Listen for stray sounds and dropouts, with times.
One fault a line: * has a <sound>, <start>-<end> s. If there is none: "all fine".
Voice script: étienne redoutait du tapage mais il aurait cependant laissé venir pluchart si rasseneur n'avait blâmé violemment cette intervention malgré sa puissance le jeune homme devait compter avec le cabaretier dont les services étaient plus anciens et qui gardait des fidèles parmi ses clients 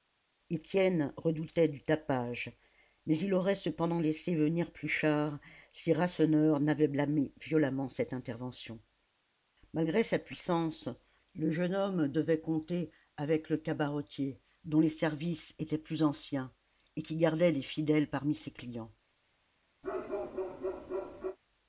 * has a bark, 19.8-21.4 s